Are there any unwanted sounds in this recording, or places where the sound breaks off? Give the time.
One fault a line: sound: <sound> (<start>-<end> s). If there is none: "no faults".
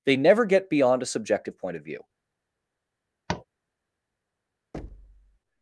sound: tap (3.3-3.4 s)
sound: thud (4.7-5.4 s)